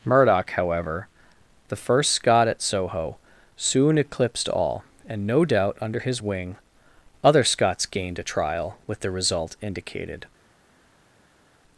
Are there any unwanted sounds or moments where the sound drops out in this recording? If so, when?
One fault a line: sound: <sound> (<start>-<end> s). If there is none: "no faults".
no faults